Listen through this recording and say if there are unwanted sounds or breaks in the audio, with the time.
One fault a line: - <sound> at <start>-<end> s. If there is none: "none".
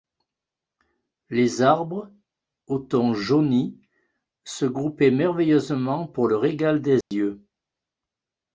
- dropout at 7.0-7.1 s